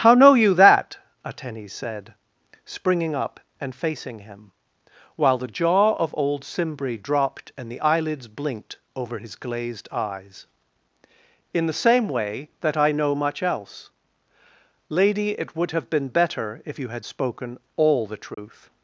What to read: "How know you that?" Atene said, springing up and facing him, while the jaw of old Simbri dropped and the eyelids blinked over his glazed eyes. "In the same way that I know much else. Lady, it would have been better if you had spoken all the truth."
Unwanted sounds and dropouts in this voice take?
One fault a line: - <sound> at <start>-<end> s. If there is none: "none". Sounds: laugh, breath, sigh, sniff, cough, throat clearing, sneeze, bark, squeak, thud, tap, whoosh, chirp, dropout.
- dropout at 18.3-18.4 s